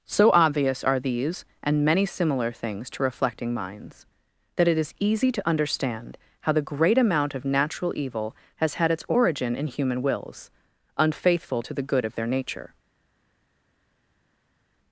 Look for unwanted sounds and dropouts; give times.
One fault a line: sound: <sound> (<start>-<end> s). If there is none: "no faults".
no faults